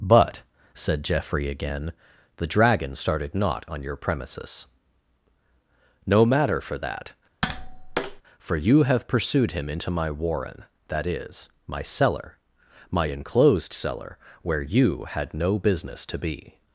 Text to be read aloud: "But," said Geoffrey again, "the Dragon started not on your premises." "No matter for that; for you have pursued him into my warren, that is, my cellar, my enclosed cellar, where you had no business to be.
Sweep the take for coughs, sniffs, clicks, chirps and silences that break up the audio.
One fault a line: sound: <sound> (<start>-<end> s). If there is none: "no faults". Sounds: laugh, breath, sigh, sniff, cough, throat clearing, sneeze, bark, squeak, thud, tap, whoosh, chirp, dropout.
sound: tap (7.4-8.2 s)